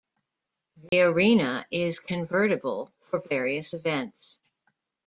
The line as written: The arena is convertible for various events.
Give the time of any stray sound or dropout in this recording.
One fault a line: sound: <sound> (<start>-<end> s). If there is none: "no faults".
sound: dropout (0.9-0.9 s)